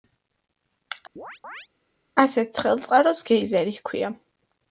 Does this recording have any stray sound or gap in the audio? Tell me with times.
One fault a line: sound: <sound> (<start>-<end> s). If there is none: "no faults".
sound: chirp (1.2-1.7 s)